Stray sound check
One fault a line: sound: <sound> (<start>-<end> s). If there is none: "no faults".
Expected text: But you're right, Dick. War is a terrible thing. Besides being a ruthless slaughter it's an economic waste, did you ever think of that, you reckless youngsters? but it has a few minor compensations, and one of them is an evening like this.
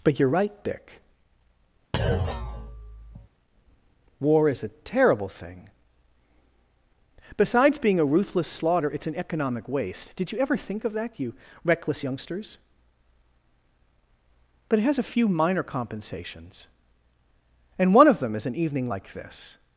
sound: thud (1.9-3.3 s)